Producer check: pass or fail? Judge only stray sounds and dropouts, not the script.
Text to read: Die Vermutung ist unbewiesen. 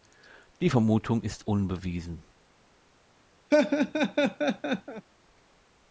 fail